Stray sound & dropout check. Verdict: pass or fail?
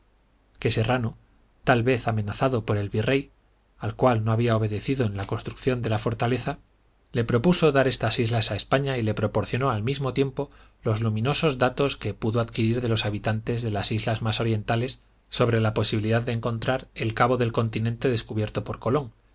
pass